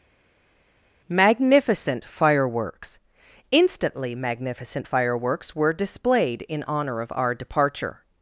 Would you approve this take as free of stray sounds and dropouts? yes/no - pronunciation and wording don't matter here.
yes